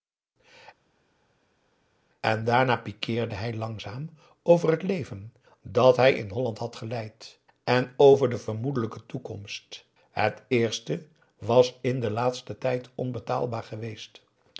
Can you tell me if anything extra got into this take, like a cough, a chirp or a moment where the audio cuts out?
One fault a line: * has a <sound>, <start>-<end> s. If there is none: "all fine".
all fine